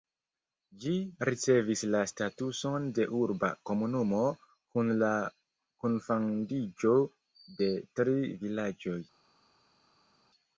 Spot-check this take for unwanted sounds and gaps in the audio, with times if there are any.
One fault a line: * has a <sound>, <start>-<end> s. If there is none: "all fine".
all fine